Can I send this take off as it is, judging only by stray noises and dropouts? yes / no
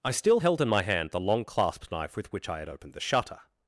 yes